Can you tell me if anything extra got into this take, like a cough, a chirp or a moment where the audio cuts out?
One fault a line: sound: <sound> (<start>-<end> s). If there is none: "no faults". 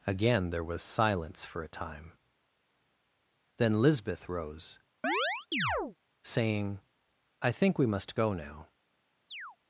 sound: chirp (5.0-6.0 s)
sound: chirp (9.3-9.6 s)